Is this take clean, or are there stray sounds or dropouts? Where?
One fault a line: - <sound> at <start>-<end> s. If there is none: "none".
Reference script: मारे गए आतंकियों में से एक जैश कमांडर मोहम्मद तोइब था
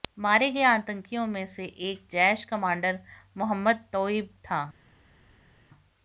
none